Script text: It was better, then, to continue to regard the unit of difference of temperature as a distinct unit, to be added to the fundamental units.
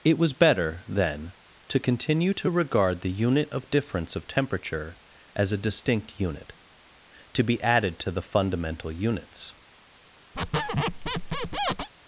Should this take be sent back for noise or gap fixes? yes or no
yes